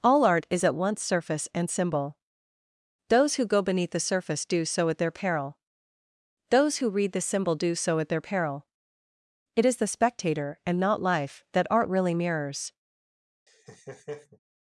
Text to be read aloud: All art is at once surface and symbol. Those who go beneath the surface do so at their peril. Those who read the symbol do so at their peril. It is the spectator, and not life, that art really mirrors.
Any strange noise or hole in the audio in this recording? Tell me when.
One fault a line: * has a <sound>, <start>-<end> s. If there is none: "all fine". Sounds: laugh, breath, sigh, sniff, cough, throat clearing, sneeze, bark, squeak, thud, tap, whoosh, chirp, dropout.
* has a laugh, 13.5-14.4 s